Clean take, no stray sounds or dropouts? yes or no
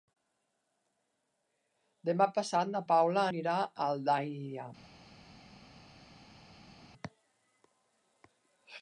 yes